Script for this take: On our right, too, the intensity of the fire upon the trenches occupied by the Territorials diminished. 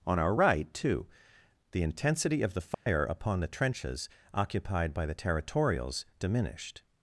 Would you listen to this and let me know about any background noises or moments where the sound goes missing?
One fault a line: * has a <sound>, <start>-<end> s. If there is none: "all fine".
* has a dropout, 2.7-2.9 s